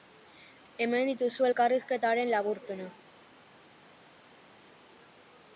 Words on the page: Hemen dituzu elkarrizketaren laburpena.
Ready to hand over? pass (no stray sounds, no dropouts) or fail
pass